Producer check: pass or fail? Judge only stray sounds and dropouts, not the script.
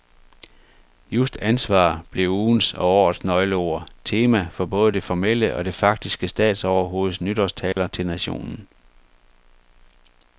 fail